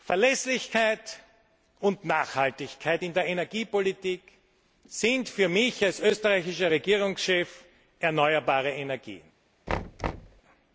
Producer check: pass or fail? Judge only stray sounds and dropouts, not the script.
fail